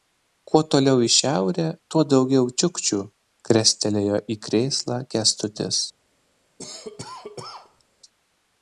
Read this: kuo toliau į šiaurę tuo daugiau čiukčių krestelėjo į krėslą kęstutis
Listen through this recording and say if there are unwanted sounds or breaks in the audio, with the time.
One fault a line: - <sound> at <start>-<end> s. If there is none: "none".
- cough at 6.6-7.8 s